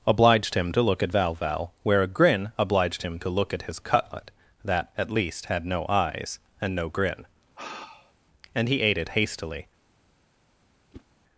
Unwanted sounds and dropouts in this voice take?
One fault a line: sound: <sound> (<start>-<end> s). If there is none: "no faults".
sound: sigh (7.6-8.1 s)
sound: whoosh (10.9-11.1 s)